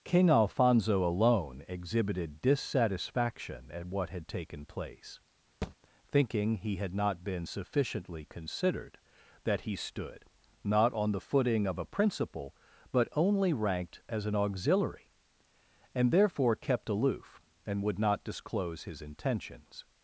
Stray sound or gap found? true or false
true